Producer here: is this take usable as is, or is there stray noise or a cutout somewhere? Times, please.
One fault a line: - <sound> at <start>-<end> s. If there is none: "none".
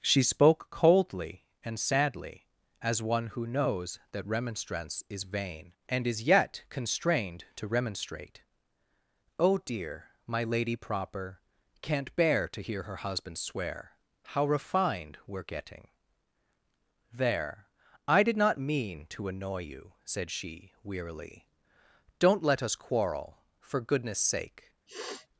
- sniff at 24.9-25.3 s